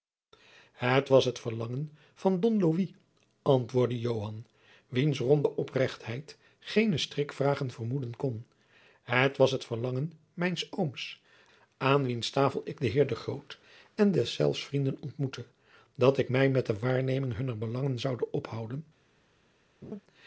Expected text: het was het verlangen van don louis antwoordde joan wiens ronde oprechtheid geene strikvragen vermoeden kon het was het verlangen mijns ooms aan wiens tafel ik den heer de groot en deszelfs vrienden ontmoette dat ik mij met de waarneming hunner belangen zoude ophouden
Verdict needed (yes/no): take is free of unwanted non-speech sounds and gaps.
no